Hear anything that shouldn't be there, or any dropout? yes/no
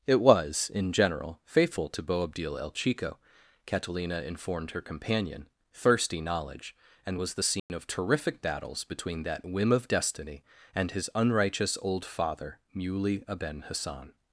yes